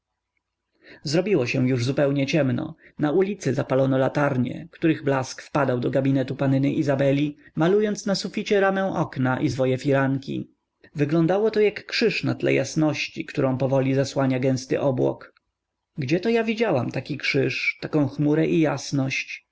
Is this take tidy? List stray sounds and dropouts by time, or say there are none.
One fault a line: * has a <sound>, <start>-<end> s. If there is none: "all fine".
all fine